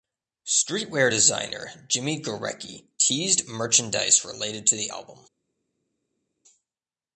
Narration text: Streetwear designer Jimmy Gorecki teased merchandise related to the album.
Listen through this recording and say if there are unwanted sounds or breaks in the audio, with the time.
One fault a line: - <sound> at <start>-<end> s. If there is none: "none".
none